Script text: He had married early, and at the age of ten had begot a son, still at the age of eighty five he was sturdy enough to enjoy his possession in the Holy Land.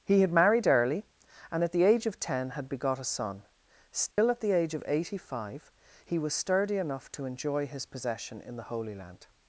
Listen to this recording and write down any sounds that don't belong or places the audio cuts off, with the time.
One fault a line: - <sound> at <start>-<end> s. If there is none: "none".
- dropout at 4.1-4.2 s